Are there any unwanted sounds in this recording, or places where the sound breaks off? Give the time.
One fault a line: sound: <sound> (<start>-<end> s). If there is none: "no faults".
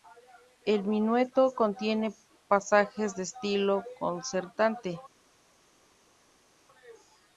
no faults